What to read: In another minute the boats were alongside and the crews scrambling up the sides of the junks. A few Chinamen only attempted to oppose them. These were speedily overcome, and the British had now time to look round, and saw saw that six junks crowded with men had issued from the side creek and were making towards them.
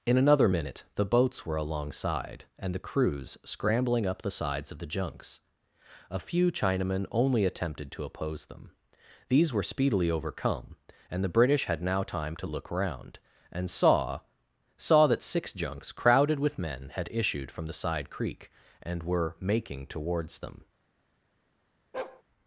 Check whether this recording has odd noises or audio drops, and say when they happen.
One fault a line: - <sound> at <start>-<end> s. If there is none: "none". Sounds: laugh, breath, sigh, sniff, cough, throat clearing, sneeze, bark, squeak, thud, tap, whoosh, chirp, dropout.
- bark at 21.9-22.2 s